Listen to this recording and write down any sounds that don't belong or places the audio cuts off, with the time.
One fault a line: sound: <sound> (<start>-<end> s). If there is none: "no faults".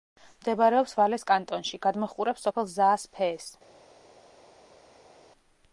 no faults